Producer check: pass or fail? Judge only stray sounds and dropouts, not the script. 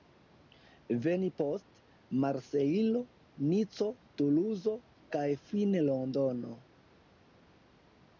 pass